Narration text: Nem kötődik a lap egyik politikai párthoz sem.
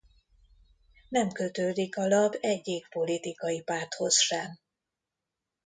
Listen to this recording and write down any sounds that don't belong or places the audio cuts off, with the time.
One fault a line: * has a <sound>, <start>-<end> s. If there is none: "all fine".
all fine